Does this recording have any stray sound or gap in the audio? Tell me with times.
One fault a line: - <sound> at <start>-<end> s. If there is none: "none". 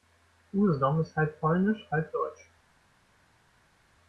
none